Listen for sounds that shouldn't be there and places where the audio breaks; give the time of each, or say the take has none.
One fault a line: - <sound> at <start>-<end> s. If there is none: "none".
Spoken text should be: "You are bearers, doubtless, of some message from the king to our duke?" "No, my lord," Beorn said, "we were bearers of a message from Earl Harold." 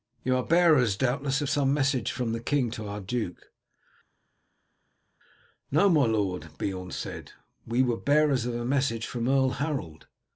none